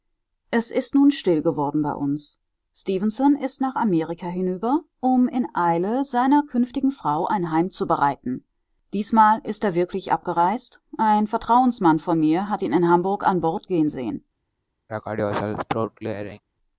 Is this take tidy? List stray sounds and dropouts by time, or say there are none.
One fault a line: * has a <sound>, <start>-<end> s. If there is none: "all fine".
* has a throat clearing, 14.9-16.4 s